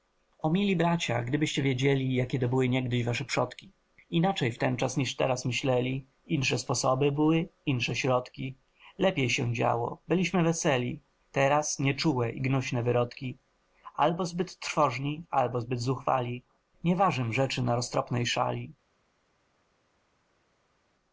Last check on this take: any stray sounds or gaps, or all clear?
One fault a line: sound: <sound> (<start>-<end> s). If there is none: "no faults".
no faults